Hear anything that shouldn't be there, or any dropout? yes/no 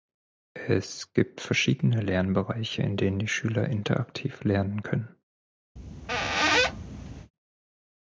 yes